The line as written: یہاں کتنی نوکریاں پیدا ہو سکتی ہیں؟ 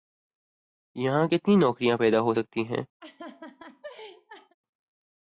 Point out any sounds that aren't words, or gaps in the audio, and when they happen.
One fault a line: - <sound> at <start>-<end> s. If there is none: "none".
- laugh at 3.0-4.6 s